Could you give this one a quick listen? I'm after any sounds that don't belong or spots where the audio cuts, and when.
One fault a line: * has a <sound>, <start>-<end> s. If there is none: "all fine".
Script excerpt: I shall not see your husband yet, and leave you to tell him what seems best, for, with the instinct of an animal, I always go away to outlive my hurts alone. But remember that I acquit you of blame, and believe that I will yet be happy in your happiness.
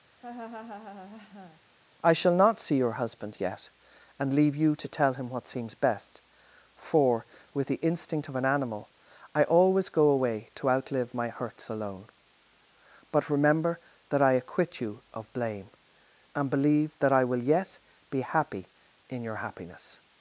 * has a laugh, 0.2-1.6 s